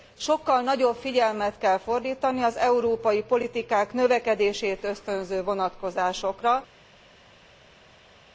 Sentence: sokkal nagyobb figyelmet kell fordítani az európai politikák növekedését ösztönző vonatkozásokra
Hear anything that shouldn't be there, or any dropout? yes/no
no